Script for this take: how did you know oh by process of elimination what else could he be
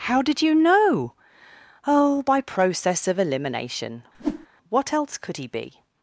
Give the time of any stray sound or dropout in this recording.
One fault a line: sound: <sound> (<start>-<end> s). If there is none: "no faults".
sound: whoosh (4.1-4.5 s)